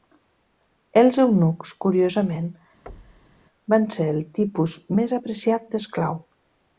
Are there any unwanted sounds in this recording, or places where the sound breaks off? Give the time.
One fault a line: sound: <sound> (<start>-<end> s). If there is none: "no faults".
sound: thud (2.9-3.4 s)